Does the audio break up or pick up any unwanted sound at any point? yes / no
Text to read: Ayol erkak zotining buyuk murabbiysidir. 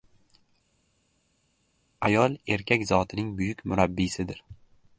no